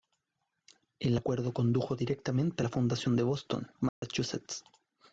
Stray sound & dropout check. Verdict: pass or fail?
fail